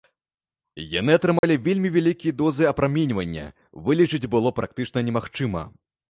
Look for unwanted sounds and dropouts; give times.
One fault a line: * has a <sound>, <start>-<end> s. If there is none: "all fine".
* has a dropout, 1.4-1.4 s